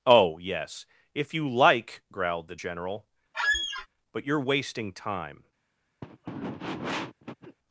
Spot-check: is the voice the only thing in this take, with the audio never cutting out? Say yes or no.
no